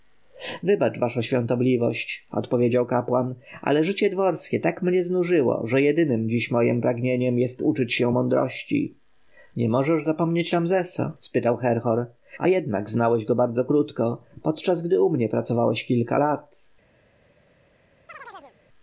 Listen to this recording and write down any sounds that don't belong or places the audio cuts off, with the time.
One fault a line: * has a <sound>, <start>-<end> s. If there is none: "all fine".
* has a chirp, 18.1-18.6 s